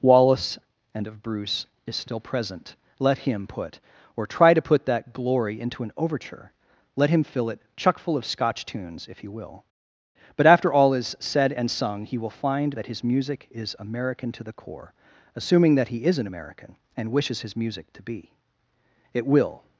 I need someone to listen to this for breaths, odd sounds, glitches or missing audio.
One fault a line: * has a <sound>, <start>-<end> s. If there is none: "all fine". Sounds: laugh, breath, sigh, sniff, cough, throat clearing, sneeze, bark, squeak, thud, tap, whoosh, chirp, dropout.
all fine